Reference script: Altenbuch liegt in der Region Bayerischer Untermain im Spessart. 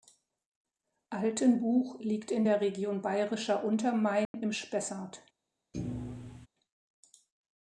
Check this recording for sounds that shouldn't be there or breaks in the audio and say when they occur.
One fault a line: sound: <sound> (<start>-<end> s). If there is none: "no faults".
sound: dropout (4.2-4.3 s)
sound: thud (5.7-6.5 s)